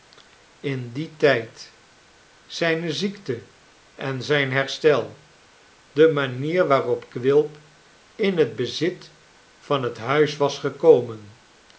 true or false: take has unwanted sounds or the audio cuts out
false